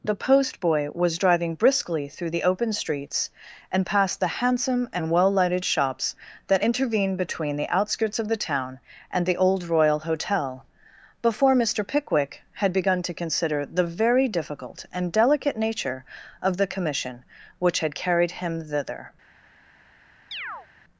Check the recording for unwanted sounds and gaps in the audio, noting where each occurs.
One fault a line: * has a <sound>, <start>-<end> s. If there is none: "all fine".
* has a chirp, 20.3-20.7 s